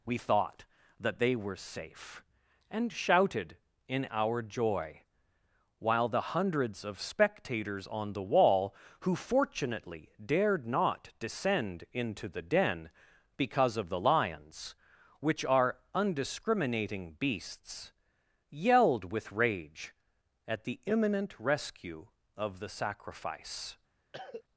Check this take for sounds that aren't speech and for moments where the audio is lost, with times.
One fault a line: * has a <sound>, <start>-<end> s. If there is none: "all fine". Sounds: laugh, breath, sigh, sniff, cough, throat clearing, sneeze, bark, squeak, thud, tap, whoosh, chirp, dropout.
* has a cough, 24.1-24.4 s